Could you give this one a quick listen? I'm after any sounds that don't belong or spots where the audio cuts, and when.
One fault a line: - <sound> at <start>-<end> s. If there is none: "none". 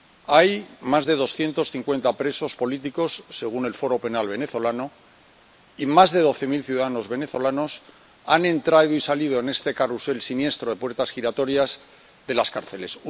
none